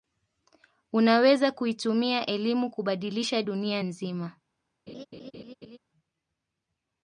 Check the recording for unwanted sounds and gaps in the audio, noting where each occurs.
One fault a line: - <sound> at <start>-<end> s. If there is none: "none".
- laugh at 4.9-5.8 s